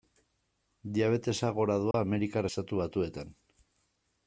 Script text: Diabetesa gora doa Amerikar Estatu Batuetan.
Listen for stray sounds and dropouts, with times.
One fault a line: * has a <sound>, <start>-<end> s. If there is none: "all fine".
* has a dropout, 1.9-1.9 s